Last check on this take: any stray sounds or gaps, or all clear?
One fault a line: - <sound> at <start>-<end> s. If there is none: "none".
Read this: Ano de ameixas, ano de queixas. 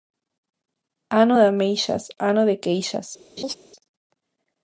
- laugh at 3.4-3.5 s